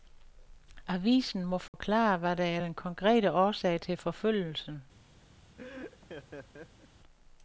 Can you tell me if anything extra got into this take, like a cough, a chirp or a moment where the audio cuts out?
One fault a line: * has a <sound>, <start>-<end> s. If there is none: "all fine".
* has a dropout, 1.7-1.7 s
* has a laugh, 5.6-6.9 s